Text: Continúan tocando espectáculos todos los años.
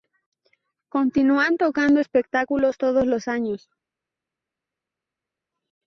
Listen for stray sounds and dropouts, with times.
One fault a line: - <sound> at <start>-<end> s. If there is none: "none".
none